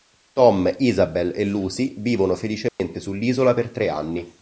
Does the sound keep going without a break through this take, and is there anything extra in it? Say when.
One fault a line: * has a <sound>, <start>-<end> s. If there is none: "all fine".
* has a dropout, 2.7-2.8 s